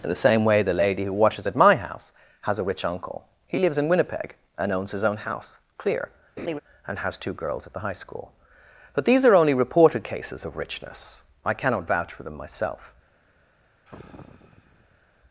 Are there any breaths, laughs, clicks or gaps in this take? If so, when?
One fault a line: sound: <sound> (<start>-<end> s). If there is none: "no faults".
sound: laugh (6.4-6.6 s)
sound: sigh (13.9-15.0 s)